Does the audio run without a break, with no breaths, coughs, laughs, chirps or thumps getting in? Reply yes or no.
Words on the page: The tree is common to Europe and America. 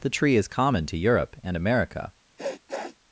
no